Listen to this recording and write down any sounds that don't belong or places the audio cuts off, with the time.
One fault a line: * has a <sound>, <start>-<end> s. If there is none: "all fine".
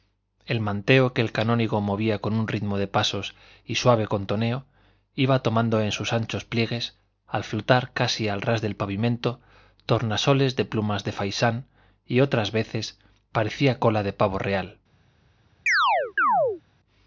* has a chirp, 15.7-16.6 s